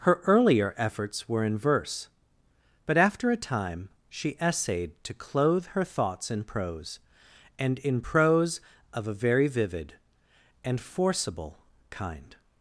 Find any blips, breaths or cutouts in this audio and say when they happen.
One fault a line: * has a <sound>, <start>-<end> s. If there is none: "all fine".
all fine